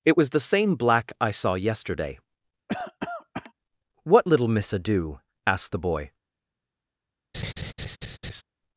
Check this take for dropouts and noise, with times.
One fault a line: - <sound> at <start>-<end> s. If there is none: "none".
- cough at 2.7-3.5 s
- laugh at 7.3-8.4 s